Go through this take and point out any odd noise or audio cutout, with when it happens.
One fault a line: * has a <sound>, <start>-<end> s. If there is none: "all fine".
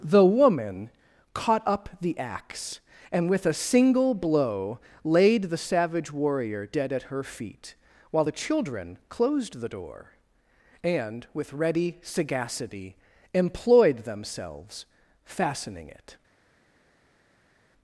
all fine